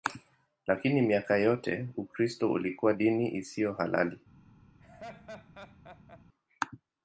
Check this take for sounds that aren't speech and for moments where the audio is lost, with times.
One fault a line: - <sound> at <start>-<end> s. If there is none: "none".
- laugh at 4.8-6.2 s